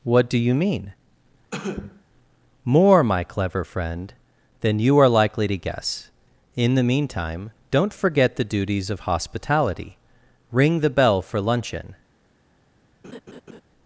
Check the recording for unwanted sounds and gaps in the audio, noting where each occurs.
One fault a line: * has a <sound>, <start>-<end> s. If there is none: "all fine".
* has a cough, 1.5-2.0 s
* has a laugh, 13.0-13.6 s